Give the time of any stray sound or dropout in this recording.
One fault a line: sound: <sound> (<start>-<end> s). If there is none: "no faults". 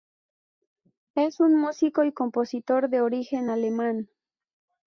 no faults